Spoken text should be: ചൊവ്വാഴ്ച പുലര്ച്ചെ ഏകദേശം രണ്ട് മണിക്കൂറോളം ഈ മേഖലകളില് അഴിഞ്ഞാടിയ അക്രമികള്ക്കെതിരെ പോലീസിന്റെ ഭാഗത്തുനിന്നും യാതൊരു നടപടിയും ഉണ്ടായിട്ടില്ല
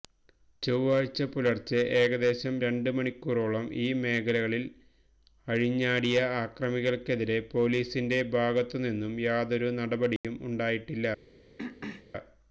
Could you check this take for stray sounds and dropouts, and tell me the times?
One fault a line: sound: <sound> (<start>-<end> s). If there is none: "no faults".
sound: dropout (10.2-10.2 s)
sound: throat clearing (11.6-12.1 s)